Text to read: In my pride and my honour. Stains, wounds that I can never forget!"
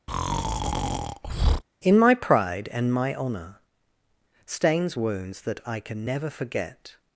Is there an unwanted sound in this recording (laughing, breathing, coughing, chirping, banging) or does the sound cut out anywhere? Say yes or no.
yes